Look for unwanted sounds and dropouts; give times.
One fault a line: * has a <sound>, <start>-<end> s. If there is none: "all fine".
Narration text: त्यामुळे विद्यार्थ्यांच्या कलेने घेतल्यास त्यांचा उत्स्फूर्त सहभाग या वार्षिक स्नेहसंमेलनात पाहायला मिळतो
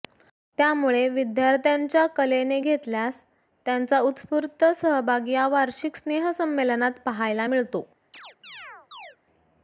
* has a chirp, 8.1-9.2 s